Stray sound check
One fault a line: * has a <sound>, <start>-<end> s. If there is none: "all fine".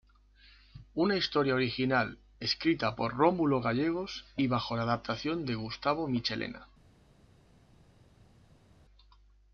all fine